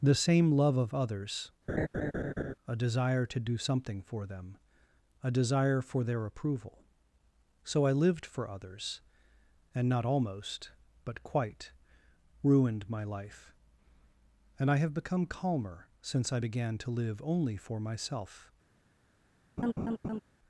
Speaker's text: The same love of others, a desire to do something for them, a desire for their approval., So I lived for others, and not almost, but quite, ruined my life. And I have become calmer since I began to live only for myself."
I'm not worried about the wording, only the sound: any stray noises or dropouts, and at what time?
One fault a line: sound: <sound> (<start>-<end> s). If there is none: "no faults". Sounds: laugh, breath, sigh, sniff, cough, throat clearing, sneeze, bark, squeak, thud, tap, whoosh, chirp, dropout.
sound: laugh (1.7-2.5 s)
sound: laugh (19.6-20.2 s)